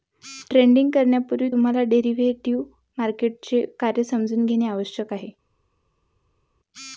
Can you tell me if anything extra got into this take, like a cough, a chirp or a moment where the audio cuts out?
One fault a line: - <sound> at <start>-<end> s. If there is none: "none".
none